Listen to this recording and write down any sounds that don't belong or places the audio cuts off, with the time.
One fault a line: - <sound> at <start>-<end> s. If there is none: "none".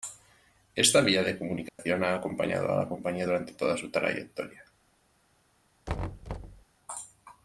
- dropout at 1.7-1.8 s
- thud at 5.9-6.6 s